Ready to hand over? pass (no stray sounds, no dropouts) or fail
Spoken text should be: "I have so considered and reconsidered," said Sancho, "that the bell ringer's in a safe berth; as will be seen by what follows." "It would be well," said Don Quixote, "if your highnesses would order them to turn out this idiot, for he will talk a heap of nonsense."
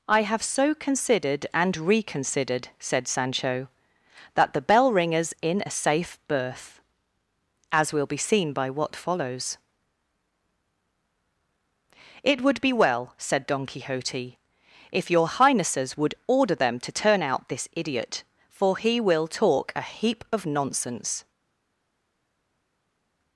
pass